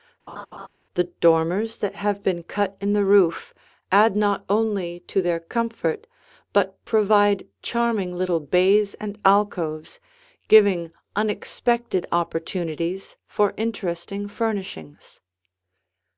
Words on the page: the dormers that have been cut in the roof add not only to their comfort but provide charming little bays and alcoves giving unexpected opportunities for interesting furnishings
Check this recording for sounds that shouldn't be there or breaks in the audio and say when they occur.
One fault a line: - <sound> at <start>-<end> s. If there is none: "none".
- laugh at 0.3-0.7 s